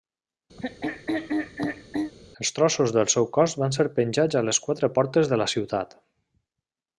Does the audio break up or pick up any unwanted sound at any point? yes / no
yes